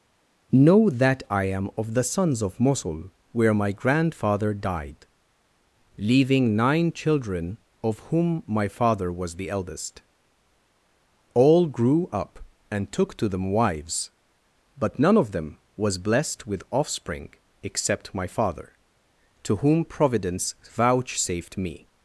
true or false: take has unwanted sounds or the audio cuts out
false